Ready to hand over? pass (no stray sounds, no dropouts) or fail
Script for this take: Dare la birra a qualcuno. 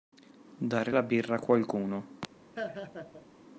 fail